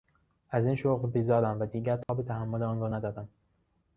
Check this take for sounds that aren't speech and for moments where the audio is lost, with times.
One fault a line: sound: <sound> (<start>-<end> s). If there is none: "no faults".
sound: dropout (2.0-2.1 s)